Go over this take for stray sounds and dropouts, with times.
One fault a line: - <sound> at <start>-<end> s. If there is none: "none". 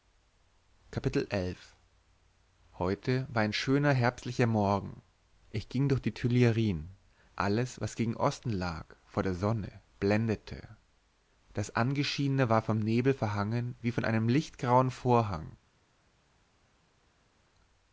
none